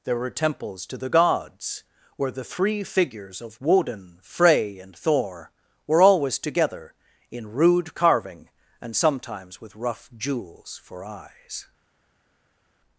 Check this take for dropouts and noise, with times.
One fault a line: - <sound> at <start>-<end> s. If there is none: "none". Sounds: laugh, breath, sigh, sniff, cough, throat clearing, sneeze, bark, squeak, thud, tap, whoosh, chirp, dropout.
none